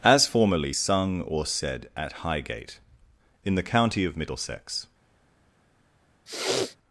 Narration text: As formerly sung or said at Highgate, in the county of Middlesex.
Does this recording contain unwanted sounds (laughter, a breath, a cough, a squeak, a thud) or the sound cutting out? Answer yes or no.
yes